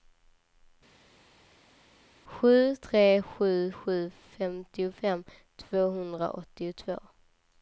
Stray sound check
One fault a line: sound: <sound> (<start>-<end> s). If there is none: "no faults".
no faults